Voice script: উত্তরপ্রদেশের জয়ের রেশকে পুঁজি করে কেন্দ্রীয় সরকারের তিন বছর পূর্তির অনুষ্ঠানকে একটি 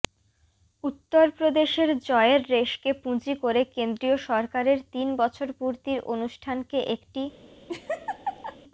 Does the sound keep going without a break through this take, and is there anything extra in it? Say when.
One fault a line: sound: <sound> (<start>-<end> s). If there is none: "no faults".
sound: laugh (7.7-8.6 s)